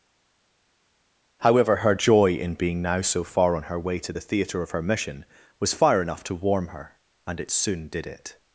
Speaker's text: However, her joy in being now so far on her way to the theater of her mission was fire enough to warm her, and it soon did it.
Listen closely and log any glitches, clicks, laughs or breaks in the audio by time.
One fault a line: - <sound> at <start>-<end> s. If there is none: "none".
none